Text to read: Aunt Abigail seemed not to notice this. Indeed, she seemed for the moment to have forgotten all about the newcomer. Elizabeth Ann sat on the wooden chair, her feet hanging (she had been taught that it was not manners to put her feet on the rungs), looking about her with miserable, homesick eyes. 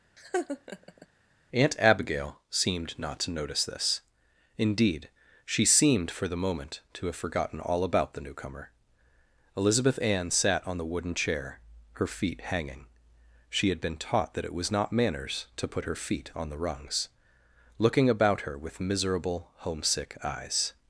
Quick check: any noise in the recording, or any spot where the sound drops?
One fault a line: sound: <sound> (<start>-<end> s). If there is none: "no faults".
sound: laugh (0.2-1.1 s)